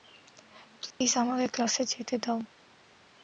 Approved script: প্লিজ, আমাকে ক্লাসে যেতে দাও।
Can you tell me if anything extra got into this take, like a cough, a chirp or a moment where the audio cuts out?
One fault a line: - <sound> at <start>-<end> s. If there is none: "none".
- dropout at 0.9-1.0 s